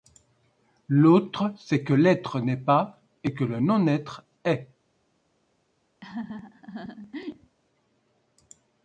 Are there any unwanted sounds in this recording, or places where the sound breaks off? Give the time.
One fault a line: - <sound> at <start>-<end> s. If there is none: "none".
- laugh at 6.0-7.6 s